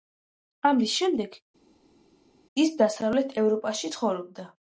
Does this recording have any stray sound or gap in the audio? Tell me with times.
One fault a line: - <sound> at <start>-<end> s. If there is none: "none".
none